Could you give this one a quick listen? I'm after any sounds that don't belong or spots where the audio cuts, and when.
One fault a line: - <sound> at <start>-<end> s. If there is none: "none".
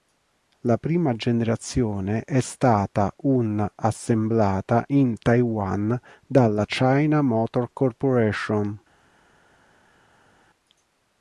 none